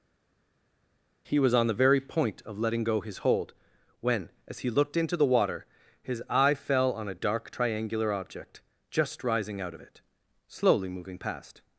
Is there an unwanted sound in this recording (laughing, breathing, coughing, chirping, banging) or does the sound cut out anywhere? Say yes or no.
no